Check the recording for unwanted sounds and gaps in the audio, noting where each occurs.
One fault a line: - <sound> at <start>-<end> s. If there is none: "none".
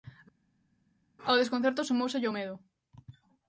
none